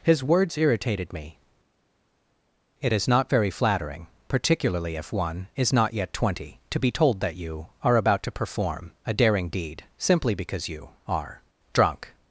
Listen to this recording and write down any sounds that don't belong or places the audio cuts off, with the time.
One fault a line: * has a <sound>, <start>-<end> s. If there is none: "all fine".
all fine